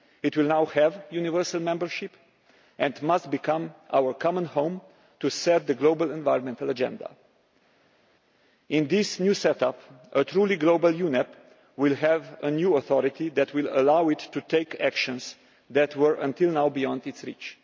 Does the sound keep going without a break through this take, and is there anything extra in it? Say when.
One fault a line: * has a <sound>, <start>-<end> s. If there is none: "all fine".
all fine